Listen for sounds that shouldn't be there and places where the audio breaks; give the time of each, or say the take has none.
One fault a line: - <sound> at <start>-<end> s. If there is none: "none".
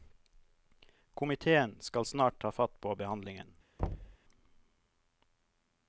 - thud at 3.8-4.2 s